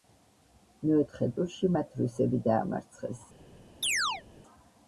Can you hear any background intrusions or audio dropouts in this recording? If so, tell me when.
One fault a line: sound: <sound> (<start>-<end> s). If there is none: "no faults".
sound: chirp (3.8-4.2 s)